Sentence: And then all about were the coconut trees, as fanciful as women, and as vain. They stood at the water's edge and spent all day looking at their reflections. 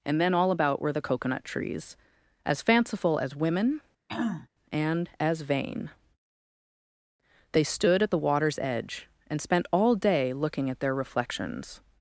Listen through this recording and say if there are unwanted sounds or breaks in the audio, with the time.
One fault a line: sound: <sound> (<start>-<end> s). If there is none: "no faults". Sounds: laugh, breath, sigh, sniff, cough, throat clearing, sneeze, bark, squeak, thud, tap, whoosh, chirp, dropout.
sound: throat clearing (4.1-4.5 s)